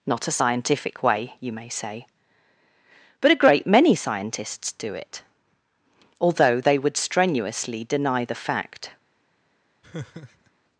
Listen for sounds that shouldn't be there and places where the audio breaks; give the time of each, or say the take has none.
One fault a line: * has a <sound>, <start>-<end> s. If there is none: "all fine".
* has a laugh, 9.8-10.5 s